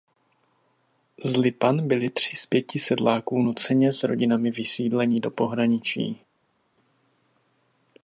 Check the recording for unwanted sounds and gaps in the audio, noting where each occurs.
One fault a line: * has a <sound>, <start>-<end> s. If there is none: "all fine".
all fine